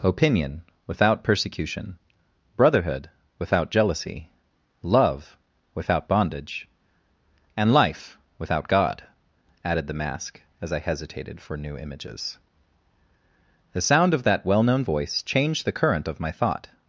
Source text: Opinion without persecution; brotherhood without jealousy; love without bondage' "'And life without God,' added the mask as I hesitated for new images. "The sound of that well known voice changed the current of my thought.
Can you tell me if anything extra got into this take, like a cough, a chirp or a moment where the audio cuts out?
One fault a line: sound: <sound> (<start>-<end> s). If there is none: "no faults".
no faults